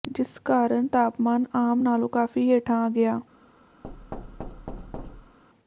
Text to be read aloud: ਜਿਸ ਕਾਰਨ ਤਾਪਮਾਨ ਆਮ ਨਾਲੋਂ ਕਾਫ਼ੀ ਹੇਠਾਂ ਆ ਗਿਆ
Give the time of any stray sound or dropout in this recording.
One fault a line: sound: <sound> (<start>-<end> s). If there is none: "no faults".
sound: thud (3.8-5.4 s)